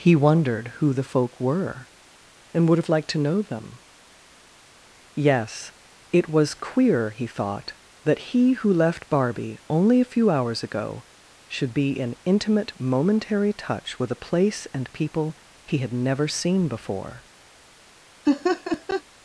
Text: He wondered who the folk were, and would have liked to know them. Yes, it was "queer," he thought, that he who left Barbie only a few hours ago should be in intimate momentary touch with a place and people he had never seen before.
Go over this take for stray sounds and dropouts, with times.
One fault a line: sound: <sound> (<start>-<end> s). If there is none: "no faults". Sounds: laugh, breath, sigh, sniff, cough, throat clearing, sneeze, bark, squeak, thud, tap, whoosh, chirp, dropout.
sound: laugh (18.3-19.0 s)